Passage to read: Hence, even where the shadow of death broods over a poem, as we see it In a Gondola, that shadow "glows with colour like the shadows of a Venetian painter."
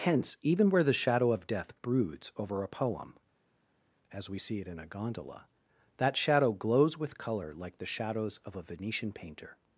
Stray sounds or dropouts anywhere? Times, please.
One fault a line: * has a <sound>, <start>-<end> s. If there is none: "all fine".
all fine